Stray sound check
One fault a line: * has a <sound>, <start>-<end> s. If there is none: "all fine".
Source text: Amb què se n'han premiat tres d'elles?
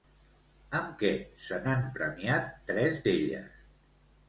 all fine